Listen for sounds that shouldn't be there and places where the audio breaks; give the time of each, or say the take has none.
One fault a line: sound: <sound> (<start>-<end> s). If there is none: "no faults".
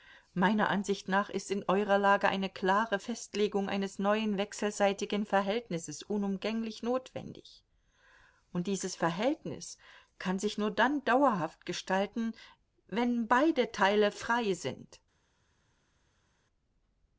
no faults